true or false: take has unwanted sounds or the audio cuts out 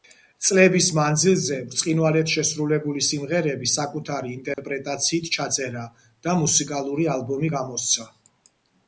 true